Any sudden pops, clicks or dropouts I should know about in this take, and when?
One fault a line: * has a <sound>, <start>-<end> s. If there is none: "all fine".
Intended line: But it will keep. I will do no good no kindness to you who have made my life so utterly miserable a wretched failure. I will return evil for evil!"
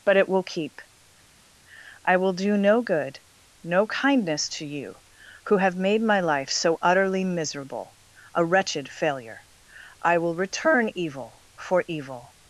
all fine